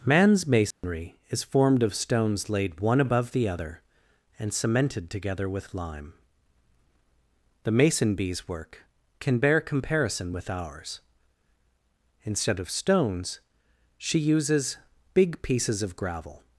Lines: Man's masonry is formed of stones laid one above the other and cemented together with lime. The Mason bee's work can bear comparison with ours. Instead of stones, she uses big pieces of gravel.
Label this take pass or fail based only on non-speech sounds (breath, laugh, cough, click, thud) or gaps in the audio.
fail